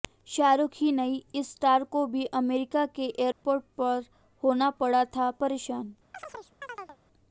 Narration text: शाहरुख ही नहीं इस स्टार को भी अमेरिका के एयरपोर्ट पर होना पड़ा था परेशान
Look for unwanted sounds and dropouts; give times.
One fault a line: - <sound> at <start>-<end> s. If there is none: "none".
- dropout at 3.3-3.4 s
- chirp at 6.1-7.0 s